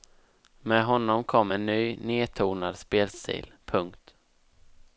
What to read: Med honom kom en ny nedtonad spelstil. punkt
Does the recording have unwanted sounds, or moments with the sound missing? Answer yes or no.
no